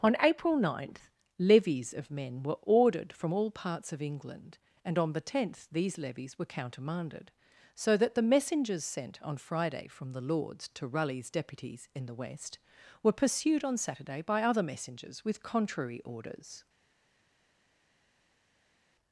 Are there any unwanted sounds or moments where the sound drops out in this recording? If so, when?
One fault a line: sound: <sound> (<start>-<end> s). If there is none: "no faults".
no faults